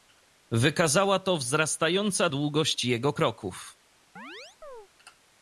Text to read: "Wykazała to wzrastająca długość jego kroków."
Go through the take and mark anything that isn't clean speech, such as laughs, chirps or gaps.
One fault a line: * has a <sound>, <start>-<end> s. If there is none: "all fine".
* has a chirp, 4.2-4.9 s